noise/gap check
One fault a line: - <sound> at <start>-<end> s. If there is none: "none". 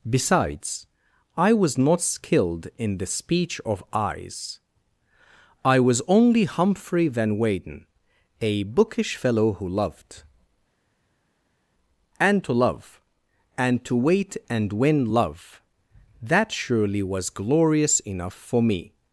none